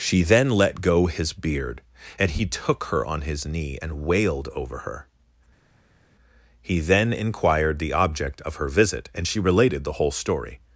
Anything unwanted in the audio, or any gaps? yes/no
no